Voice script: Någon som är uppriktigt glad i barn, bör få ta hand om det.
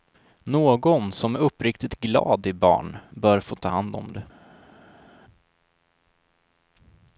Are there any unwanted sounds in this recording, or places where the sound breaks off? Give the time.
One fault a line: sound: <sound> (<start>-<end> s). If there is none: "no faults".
no faults